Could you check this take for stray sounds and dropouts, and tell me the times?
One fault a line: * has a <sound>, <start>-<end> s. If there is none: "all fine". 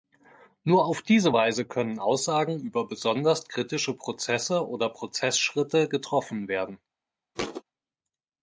* has a thud, 7.3-7.6 s